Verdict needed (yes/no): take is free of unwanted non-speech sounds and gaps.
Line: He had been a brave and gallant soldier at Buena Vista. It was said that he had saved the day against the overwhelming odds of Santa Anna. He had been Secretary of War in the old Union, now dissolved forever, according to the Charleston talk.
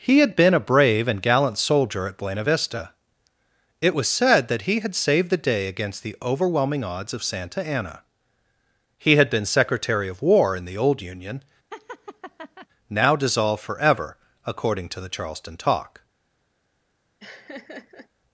no